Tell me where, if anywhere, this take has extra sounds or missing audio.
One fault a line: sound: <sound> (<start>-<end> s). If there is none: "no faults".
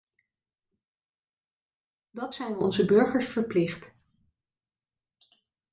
no faults